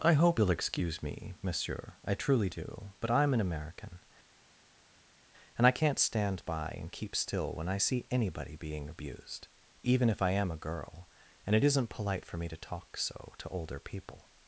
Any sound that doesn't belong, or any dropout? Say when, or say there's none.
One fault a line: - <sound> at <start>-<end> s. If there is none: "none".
none